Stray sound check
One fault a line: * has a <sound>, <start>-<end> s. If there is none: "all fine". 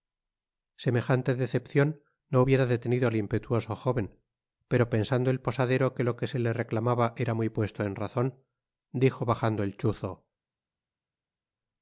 all fine